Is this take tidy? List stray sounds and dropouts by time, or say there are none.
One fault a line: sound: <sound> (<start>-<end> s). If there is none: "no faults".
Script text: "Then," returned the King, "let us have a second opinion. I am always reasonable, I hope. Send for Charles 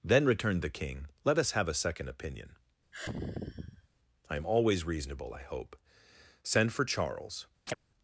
sound: sigh (2.9-3.9 s)
sound: chirp (7.7-7.7 s)